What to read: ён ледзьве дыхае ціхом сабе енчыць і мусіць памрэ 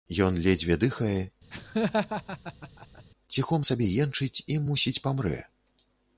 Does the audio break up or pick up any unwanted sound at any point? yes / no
yes